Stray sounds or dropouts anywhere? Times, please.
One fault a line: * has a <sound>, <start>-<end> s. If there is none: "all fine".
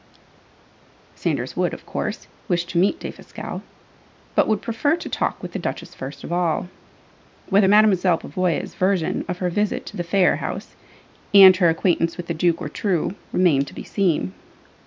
all fine